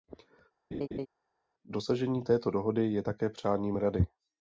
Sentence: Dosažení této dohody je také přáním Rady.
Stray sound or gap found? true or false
true